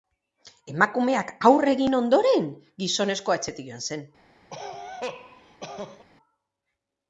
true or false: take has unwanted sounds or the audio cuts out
true